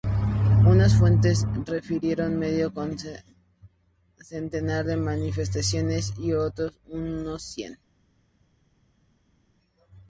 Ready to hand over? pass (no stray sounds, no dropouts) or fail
pass